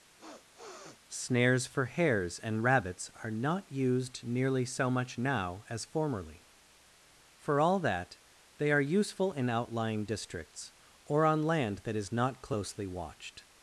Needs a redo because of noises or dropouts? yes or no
yes